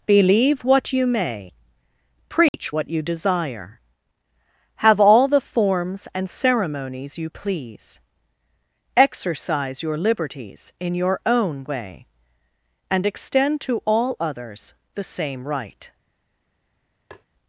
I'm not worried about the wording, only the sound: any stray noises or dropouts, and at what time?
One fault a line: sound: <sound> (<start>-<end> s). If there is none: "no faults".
sound: dropout (2.5-2.5 s)
sound: tap (17.1-17.3 s)